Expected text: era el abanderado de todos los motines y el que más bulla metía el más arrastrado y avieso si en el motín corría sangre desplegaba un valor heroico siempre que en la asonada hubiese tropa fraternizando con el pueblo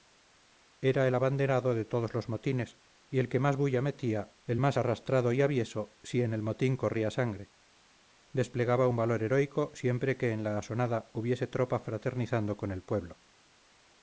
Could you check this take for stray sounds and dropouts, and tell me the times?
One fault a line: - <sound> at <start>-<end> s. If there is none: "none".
none